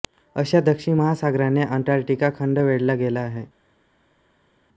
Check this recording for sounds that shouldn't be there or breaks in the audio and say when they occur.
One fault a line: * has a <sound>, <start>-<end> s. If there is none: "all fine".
all fine